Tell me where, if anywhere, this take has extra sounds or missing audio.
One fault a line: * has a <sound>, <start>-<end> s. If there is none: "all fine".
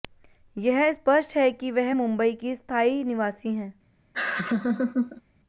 * has a laugh, 4.1-5.2 s